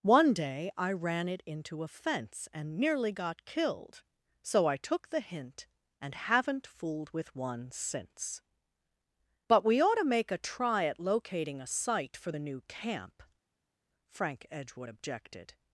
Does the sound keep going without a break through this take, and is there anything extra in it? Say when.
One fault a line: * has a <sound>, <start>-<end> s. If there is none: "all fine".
all fine